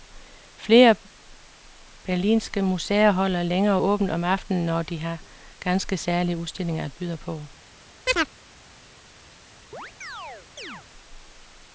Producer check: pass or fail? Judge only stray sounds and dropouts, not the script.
fail